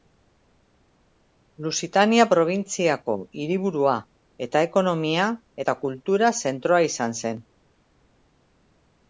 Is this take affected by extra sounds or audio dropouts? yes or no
no